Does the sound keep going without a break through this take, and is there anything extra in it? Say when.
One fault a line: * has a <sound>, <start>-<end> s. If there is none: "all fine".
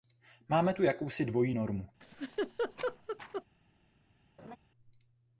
* has a laugh, 2.0-3.4 s
* has a laugh, 4.4-4.6 s